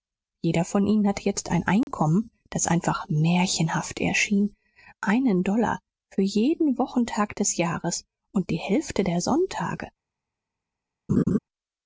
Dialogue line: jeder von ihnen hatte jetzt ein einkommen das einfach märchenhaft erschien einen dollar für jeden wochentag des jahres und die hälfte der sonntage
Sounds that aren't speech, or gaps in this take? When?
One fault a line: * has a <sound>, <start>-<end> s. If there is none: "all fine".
* has a dropout, 1.8-1.9 s
* has a laugh, 11.1-11.4 s